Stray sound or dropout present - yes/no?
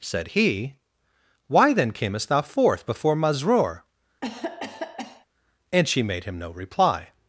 yes